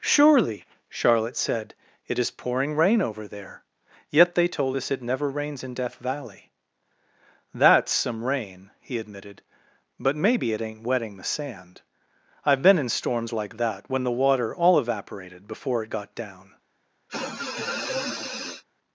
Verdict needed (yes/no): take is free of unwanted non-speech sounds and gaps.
no